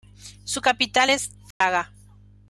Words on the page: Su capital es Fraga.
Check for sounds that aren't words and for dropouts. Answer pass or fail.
fail